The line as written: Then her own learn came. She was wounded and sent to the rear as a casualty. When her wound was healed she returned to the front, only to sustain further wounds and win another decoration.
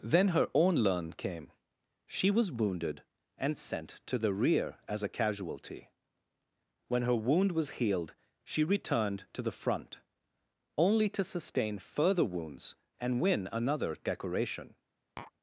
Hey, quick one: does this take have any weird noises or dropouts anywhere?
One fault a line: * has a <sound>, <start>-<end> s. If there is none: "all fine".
* has a tap, 15.2-15.3 s